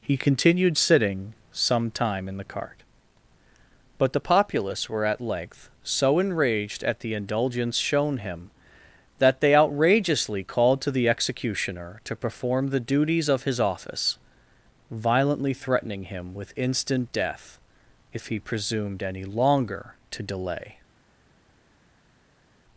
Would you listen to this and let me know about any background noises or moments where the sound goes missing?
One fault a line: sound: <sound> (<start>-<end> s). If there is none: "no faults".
no faults